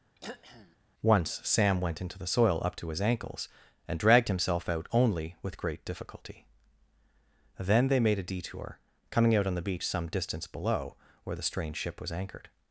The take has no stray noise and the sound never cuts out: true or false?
false